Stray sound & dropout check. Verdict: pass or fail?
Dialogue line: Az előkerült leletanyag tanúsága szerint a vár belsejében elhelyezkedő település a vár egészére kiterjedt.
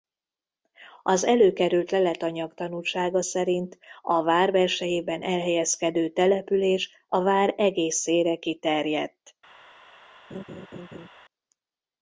fail